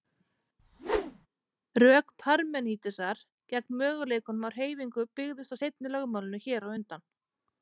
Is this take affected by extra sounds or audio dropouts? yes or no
yes